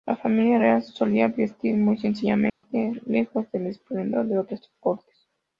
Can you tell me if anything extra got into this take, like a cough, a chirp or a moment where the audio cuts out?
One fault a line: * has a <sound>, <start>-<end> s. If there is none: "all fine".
* has a dropout, 2.5-2.6 s